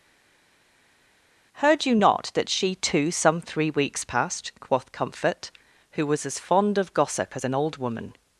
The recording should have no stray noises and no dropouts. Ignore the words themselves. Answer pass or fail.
pass